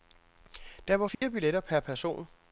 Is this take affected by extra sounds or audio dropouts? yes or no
yes